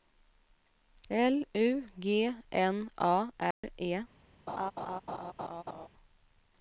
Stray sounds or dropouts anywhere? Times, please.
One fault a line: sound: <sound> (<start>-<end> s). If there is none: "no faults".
sound: dropout (3.5-3.6 s)
sound: laugh (4.5-5.9 s)